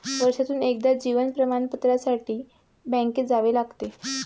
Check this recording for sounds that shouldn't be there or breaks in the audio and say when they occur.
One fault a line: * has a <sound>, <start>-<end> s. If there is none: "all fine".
all fine